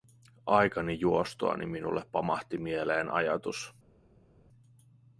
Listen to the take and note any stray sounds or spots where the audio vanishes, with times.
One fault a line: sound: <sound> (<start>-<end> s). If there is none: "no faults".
no faults